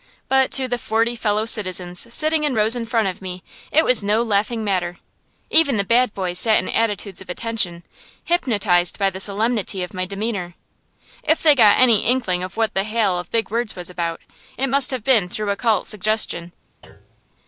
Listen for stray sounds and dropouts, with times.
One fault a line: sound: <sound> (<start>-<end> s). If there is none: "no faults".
sound: thud (16.8-17.3 s)